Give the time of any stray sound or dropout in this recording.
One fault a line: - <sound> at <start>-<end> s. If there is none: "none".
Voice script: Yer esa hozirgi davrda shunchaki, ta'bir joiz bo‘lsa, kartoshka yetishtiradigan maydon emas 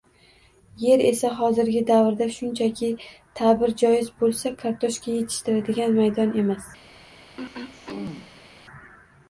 - throat clearing at 7.4-8.5 s